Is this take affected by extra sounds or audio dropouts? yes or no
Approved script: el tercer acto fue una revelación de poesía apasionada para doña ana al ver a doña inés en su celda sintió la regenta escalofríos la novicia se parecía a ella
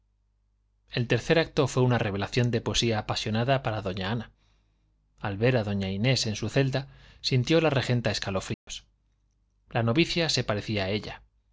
yes